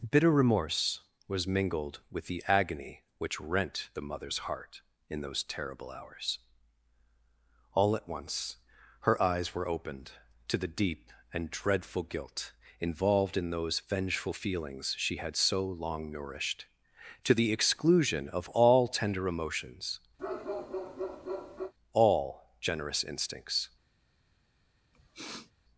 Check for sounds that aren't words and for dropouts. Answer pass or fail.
fail